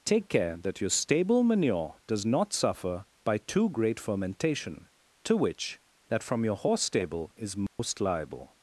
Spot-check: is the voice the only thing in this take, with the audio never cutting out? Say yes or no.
no